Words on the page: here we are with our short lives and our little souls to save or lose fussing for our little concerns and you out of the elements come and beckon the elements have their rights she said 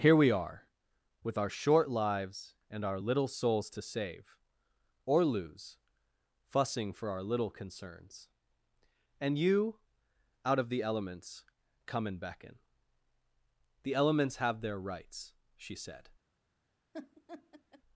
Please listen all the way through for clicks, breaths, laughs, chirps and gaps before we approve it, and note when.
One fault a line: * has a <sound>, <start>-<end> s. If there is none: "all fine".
* has a laugh, 16.9-17.8 s